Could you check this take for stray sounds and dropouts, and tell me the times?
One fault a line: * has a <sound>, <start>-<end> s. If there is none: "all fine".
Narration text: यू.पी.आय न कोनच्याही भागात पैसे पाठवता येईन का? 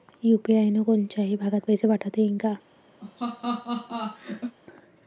* has a laugh, 3.0-4.6 s